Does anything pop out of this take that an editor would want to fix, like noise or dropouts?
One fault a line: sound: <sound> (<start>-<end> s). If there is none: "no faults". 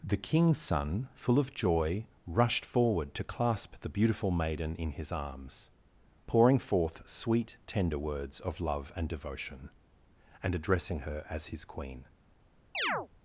sound: chirp (12.7-13.1 s)